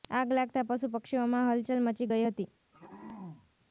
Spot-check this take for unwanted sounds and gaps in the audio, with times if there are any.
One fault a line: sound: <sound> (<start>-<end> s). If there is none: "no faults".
sound: throat clearing (2.7-3.5 s)